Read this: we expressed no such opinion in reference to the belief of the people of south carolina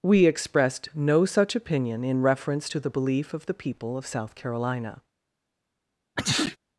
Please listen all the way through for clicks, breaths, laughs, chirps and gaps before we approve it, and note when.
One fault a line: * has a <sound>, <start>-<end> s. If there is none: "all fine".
* has a sneeze, 6.2-6.6 s